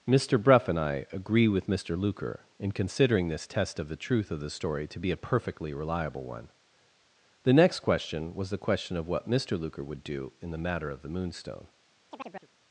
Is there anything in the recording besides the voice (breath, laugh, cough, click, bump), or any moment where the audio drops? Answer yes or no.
yes